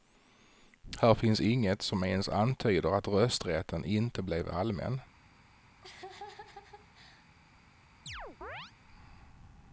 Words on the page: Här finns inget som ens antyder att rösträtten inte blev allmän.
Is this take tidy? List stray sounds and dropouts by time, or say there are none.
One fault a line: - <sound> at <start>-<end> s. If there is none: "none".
- laugh at 5.8-7.3 s
- chirp at 8.1-8.7 s